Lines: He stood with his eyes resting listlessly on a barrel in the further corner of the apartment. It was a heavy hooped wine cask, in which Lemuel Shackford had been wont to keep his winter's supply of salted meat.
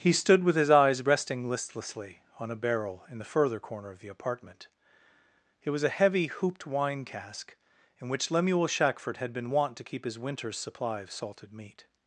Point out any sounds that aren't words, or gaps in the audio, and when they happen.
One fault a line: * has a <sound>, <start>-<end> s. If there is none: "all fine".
all fine